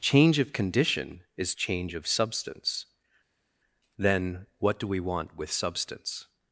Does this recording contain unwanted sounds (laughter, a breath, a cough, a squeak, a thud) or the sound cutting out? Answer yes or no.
no